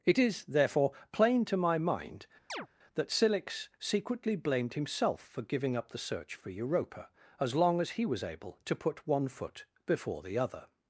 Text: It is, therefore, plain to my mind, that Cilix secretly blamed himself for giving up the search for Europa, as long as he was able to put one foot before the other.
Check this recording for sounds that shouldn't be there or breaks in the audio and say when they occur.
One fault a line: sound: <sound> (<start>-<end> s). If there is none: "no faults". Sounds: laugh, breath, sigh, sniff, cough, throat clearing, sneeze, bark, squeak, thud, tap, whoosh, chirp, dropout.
sound: chirp (2.5-2.7 s)